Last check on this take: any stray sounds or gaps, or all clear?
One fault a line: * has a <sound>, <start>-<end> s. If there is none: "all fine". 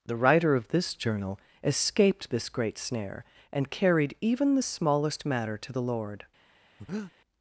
* has a breath, 6.8-7.1 s